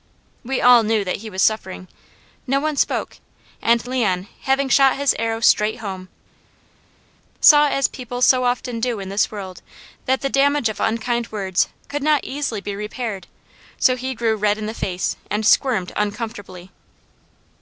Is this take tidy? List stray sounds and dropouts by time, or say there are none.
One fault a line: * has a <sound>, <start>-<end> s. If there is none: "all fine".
all fine